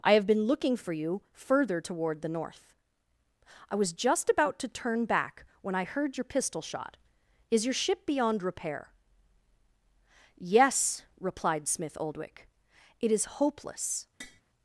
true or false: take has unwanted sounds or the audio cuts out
true